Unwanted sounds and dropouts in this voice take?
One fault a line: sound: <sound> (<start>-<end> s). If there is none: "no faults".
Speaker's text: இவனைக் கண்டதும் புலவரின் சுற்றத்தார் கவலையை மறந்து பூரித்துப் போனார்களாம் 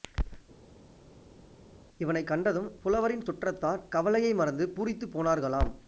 no faults